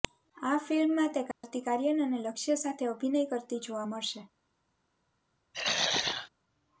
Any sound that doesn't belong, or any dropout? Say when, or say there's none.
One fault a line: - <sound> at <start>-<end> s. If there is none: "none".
- dropout at 1.3-1.4 s
- throat clearing at 5.5-6.3 s